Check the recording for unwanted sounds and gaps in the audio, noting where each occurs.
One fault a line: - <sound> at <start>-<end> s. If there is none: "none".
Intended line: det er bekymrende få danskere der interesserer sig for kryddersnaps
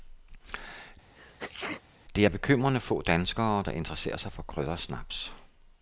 - sneeze at 1.1-1.8 s